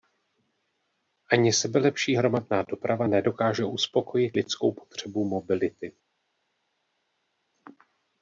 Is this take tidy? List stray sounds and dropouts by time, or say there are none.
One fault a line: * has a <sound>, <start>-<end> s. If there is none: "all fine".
all fine